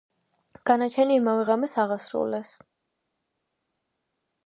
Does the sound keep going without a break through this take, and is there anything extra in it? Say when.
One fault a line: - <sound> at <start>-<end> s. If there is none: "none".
none